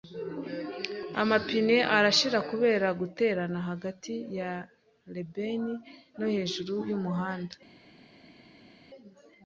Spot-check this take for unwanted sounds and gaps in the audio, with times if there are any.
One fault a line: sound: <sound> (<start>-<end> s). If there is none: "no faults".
no faults